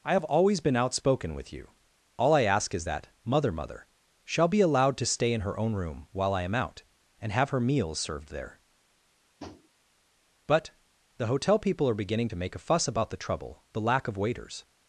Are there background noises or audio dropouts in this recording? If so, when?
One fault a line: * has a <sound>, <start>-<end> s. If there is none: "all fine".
* has a tap, 9.4-9.7 s